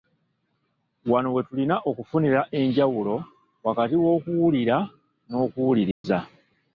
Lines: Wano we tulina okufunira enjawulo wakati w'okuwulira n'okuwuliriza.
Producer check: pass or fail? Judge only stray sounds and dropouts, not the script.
fail